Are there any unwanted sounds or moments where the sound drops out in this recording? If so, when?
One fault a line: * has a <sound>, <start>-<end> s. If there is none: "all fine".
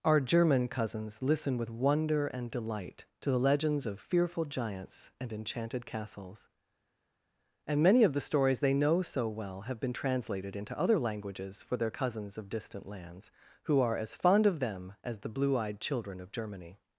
all fine